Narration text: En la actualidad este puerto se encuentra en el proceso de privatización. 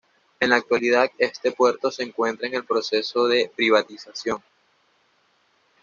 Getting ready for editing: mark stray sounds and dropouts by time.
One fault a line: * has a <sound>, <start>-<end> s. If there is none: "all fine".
all fine